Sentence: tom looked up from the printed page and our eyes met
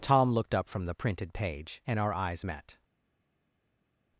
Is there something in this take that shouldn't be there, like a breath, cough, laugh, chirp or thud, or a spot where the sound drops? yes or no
no